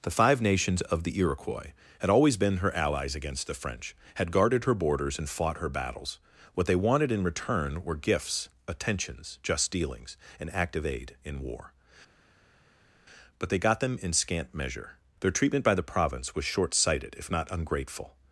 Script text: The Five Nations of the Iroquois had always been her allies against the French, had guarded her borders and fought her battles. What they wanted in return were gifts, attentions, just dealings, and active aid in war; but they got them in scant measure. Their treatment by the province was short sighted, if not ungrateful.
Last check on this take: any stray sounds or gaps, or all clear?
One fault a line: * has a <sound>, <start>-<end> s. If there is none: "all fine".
all fine